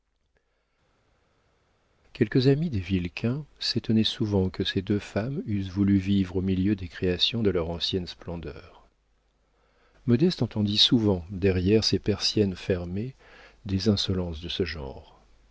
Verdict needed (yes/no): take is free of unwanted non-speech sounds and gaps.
yes